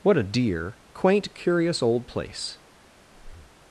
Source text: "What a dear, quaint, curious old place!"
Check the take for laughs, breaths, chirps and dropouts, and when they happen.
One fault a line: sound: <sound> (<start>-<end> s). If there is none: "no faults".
sound: breath (3.1-3.6 s)